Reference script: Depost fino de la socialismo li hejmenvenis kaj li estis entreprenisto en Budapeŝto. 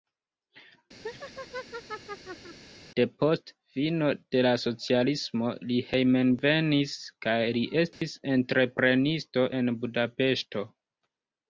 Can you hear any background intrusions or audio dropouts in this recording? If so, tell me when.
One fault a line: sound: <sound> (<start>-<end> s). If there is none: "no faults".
sound: laugh (1.0-2.6 s)
sound: dropout (7.9-8.0 s)